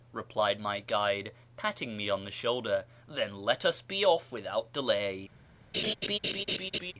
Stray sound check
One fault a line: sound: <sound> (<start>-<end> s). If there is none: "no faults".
sound: laugh (5.7-6.9 s)